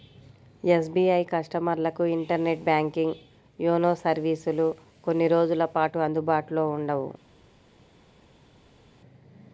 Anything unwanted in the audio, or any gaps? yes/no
no